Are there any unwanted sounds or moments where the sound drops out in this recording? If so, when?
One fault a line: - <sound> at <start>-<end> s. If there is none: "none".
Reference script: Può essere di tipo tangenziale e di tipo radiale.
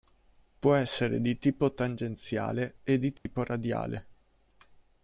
- dropout at 3.2-3.3 s